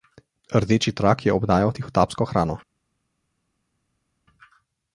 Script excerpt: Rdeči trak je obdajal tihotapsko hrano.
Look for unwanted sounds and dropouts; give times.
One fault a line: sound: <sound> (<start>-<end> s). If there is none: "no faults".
no faults